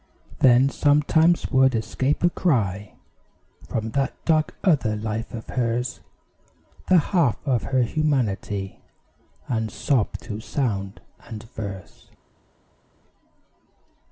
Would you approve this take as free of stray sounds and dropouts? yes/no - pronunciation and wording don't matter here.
yes